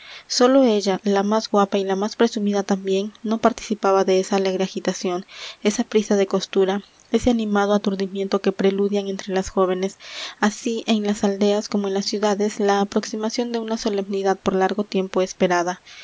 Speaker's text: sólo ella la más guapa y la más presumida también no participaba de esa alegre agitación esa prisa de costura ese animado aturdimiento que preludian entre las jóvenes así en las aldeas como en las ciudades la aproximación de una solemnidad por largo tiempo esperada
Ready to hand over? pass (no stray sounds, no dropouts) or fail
pass